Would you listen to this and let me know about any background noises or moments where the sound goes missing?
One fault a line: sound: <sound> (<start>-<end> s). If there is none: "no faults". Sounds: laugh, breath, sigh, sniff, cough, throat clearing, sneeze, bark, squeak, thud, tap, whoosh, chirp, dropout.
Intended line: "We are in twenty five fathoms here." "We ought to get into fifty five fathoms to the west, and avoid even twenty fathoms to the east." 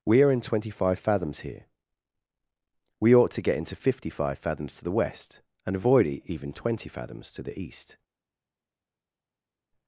no faults